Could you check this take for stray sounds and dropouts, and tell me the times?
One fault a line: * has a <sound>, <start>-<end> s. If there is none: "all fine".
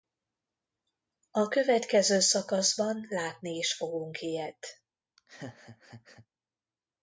* has a laugh, 5.2-6.3 s